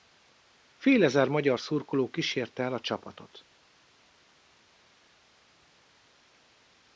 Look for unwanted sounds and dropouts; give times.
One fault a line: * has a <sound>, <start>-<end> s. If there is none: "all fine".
all fine